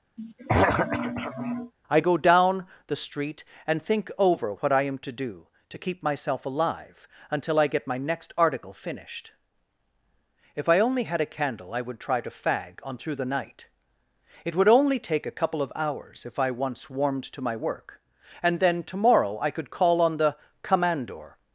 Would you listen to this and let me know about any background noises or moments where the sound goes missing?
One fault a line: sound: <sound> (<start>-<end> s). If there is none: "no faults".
sound: throat clearing (0.2-1.7 s)